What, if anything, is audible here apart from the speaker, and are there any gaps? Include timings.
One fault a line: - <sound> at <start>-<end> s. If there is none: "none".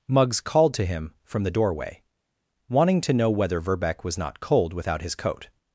none